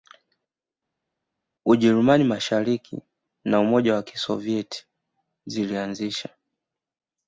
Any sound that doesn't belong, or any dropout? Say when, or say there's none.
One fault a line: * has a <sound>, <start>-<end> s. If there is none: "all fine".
all fine